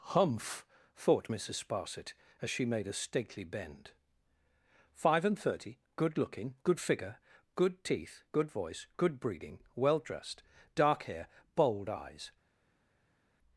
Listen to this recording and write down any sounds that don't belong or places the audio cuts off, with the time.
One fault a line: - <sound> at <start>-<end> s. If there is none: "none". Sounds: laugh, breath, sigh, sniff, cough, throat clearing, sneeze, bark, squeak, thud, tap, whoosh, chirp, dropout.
none